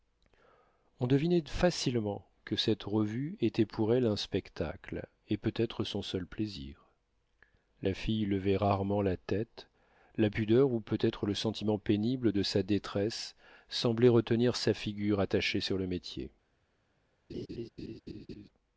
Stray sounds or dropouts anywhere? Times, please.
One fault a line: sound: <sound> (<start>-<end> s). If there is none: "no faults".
sound: laugh (17.3-18.5 s)